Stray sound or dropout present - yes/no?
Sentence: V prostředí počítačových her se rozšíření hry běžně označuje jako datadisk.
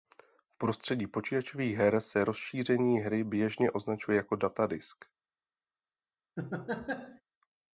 yes